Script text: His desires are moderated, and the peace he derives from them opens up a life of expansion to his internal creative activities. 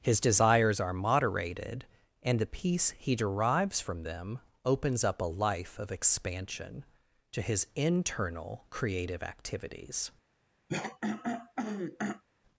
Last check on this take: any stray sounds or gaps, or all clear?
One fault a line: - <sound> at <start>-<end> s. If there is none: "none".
- throat clearing at 10.7-12.2 s